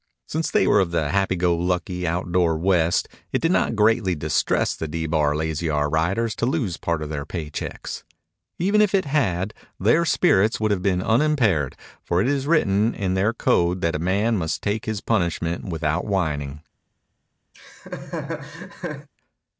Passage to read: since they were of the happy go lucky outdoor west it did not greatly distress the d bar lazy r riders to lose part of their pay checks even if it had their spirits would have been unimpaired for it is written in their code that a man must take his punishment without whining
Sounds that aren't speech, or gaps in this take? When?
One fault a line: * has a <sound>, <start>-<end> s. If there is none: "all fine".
* has a laugh, 17.5-19.1 s